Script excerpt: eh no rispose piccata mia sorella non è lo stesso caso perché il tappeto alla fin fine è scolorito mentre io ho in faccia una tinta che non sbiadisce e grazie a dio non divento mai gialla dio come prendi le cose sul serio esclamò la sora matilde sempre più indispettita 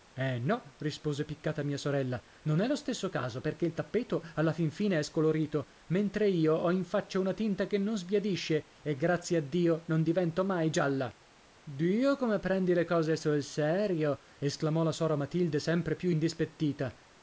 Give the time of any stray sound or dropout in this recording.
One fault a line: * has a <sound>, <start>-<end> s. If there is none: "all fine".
all fine